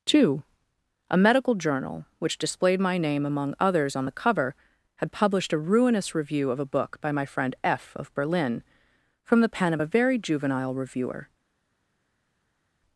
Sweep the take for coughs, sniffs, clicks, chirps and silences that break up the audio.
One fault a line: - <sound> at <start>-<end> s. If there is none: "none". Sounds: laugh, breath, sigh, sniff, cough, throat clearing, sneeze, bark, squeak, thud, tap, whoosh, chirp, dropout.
none